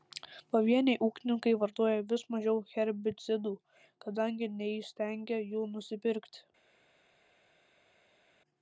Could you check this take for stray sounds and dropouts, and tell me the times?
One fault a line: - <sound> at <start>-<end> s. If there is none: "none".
none